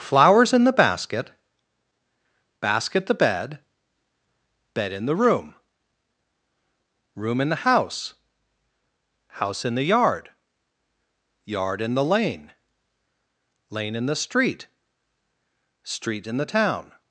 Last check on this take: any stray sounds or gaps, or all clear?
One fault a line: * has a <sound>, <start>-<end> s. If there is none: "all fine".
all fine